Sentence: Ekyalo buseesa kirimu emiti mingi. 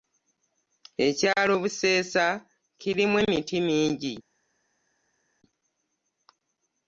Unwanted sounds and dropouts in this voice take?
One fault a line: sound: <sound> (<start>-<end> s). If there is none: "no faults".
no faults